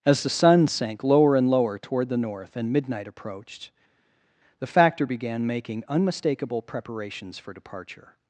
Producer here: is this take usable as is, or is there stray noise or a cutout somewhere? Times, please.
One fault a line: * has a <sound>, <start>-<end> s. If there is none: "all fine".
all fine